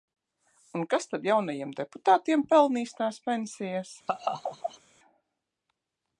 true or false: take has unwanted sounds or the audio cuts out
true